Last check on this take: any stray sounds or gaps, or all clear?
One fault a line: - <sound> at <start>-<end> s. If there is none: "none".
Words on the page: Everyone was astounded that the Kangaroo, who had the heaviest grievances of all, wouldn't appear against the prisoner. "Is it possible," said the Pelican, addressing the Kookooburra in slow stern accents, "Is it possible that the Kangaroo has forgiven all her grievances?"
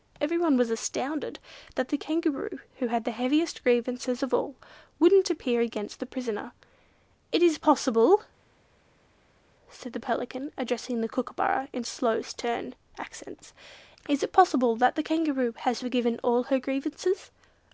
none